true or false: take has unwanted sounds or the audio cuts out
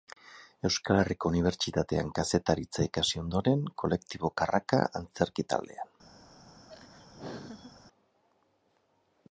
true